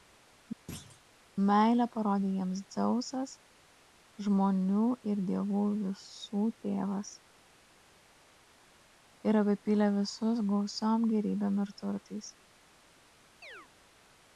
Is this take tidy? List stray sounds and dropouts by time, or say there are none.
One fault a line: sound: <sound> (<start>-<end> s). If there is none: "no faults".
sound: thud (0.7-1.0 s)
sound: chirp (13.4-13.7 s)